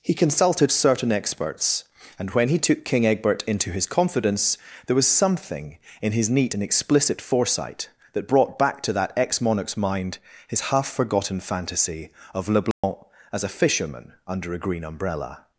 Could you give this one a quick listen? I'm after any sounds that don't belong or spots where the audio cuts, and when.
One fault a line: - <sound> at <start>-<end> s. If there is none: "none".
- dropout at 12.7-12.8 s